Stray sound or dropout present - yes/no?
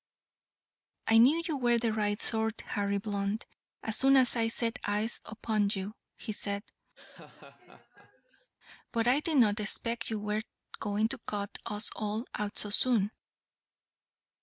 yes